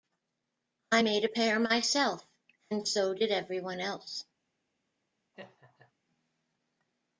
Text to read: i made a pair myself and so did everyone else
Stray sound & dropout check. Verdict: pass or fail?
fail